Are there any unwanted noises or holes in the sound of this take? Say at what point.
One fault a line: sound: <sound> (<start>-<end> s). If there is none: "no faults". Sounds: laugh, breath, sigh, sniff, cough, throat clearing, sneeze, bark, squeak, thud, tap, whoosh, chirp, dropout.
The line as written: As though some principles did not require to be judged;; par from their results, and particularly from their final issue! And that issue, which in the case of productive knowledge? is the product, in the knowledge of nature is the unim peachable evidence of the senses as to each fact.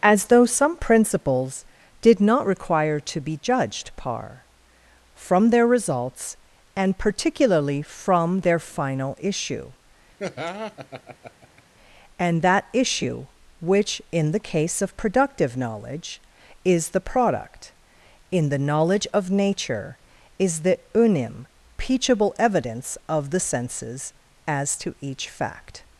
sound: laugh (10.2-11.6 s)